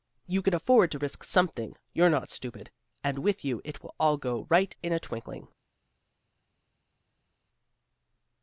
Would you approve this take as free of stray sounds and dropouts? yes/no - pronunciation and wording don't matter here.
yes